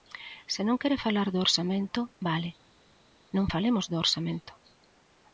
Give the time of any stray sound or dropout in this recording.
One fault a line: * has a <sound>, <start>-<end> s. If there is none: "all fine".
all fine